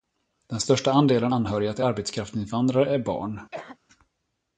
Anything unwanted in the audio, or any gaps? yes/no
yes